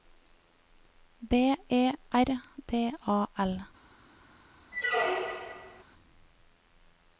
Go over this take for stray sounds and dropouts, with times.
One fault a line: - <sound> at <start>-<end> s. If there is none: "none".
- squeak at 4.7-5.8 s